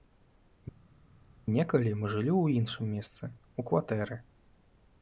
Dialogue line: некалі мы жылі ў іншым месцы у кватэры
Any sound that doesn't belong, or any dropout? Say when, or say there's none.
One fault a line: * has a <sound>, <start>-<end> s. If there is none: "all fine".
all fine